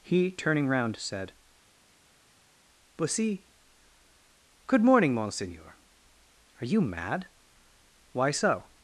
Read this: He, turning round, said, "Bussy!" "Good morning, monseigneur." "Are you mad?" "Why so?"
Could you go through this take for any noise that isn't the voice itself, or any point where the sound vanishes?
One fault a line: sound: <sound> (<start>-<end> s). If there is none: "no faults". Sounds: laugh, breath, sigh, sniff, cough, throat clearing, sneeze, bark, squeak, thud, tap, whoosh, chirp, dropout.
no faults